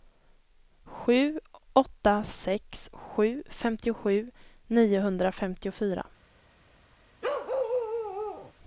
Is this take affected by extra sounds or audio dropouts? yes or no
yes